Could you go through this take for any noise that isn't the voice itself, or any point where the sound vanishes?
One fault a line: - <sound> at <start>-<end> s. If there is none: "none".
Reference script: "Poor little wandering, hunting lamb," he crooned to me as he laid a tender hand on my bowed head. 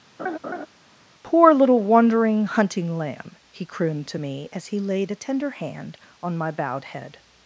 - laugh at 0.2-0.7 s